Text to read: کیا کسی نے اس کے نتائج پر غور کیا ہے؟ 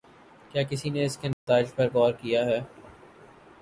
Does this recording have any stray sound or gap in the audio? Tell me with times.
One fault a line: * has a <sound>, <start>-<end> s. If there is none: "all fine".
* has a dropout, 1.3-1.5 s